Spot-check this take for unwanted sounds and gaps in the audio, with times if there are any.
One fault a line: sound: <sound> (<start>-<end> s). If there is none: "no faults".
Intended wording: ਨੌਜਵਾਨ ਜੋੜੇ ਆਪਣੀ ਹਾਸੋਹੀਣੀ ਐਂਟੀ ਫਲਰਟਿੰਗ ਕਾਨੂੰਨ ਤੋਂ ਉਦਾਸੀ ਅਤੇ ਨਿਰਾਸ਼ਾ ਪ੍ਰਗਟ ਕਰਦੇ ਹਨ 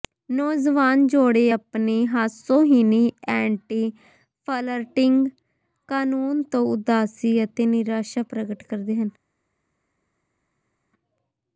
no faults